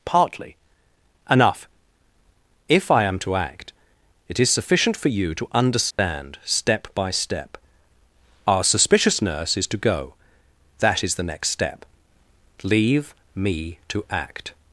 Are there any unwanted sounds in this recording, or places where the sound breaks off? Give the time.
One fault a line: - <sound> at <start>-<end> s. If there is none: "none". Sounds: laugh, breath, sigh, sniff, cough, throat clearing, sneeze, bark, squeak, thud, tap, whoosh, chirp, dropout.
- dropout at 5.9-6.0 s